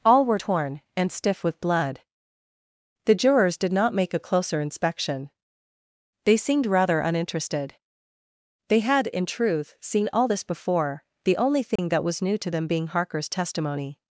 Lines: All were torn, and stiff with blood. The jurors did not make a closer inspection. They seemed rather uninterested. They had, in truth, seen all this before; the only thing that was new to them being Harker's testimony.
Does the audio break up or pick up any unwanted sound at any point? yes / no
yes